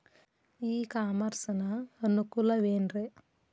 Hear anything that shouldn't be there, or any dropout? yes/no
no